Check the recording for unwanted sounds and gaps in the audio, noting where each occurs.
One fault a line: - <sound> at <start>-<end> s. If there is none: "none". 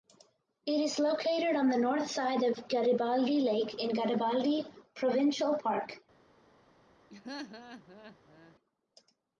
- laugh at 7.1-8.6 s